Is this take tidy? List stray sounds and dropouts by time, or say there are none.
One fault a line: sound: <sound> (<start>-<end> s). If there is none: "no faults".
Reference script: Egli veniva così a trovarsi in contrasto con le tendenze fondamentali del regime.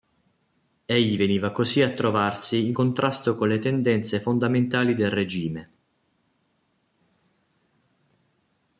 no faults